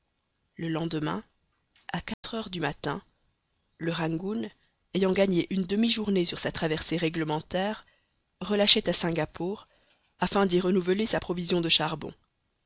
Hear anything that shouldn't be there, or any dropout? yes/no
yes